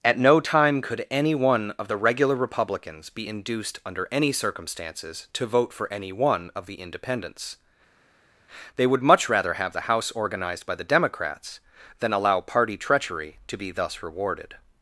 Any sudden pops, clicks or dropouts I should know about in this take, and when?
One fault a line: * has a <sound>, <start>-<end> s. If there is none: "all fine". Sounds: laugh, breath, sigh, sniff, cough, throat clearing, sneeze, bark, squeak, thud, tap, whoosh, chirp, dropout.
all fine